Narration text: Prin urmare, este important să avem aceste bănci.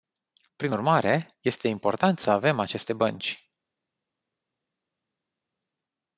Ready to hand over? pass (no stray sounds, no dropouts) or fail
pass